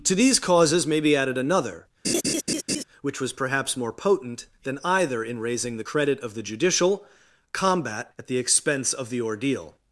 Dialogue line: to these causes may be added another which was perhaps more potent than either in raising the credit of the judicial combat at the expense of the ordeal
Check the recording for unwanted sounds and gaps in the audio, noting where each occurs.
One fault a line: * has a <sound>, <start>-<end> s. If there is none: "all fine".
* has a laugh, 2.0-2.8 s